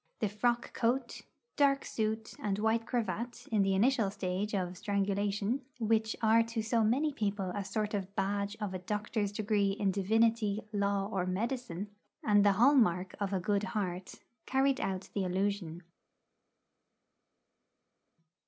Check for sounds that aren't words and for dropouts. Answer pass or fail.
pass